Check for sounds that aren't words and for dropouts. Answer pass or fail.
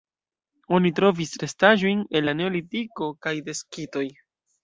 pass